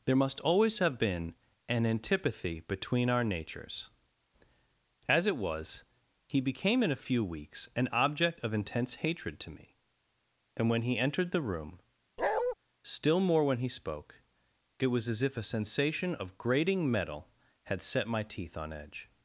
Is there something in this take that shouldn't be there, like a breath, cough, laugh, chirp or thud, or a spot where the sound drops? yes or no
yes